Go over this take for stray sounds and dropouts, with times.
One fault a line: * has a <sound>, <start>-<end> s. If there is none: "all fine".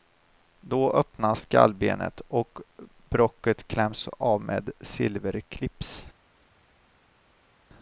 all fine